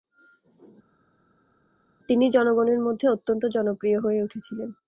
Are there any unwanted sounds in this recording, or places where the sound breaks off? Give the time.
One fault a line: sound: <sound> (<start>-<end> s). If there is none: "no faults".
no faults